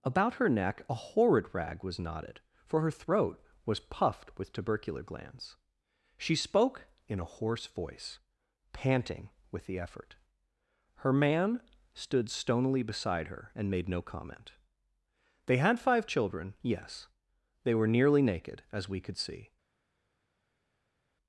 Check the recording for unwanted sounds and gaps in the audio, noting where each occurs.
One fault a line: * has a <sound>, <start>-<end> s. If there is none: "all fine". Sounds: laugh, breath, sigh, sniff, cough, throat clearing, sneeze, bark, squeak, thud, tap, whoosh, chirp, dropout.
all fine